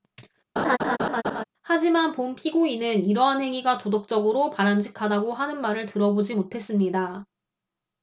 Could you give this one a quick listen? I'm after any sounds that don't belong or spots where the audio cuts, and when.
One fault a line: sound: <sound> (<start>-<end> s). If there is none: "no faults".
sound: laugh (0.6-1.4 s)